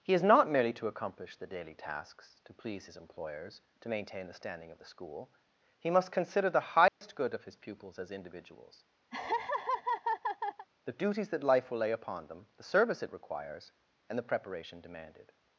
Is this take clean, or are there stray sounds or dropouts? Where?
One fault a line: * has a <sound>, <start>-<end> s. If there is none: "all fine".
* has a dropout, 6.9-7.0 s
* has a laugh, 9.1-10.7 s